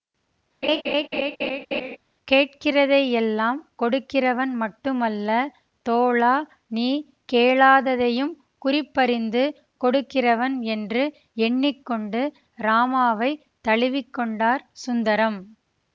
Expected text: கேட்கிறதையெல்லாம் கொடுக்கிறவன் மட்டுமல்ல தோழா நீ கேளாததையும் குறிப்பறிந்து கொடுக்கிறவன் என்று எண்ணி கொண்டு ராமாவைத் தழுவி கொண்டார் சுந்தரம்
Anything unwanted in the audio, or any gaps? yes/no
yes